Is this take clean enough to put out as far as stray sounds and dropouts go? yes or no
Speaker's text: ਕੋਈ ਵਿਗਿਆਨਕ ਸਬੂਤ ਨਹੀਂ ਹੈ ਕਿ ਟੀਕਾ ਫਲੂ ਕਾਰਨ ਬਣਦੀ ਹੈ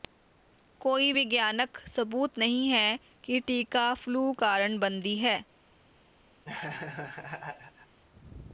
no